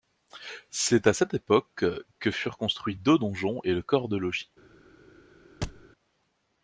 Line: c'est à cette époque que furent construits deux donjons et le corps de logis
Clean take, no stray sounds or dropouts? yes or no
no